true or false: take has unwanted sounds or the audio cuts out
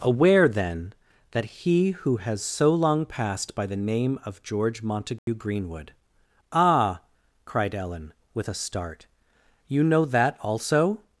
true